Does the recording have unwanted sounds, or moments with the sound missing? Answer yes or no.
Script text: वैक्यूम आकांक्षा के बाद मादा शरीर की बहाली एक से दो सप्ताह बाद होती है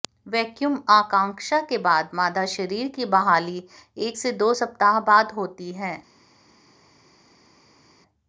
no